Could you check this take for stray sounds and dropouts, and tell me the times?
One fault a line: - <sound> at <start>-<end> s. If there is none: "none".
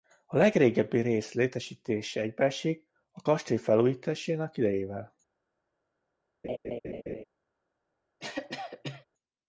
- laugh at 6.4-7.2 s
- cough at 8.2-9.1 s